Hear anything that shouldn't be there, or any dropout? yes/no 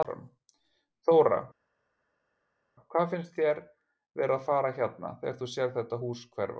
no